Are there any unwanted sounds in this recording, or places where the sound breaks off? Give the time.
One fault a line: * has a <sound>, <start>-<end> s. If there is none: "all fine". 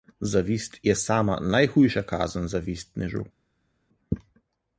all fine